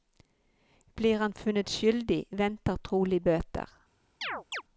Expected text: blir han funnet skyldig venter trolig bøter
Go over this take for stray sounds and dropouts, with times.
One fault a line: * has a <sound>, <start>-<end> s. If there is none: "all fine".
* has a chirp, 4.2-4.6 s